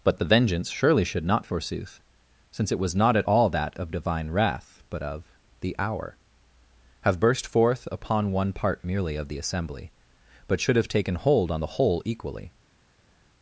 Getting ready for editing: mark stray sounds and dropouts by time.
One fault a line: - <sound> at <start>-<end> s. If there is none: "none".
none